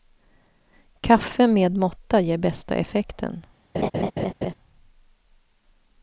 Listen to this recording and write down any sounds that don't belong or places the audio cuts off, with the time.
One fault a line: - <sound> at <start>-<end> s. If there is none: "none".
- laugh at 3.7-4.5 s